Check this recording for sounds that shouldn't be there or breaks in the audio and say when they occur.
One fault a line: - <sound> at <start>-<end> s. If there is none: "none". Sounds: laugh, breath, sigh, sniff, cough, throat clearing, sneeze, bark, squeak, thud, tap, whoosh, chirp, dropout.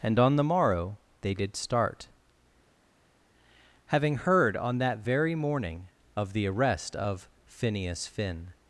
none